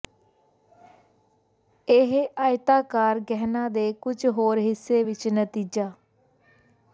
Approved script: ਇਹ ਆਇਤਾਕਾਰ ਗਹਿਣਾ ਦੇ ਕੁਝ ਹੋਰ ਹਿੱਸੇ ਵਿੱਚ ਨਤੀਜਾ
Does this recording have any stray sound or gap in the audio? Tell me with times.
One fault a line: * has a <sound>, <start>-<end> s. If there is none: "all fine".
all fine